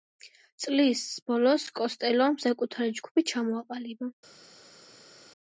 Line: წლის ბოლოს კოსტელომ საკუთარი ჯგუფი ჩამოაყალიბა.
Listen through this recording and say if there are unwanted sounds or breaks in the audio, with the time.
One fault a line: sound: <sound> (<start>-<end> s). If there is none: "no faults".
no faults